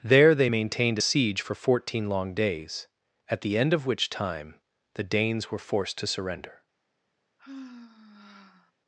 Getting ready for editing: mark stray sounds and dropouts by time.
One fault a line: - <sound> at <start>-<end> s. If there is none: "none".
- sigh at 7.4-8.7 s